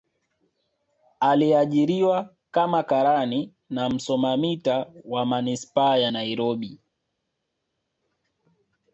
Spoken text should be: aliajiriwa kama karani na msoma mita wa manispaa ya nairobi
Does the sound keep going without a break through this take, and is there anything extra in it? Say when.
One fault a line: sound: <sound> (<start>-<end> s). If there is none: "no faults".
no faults